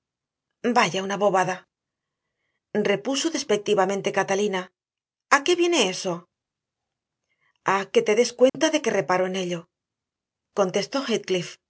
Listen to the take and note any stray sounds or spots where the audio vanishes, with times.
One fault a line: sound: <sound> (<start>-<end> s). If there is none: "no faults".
sound: dropout (8.5-8.5 s)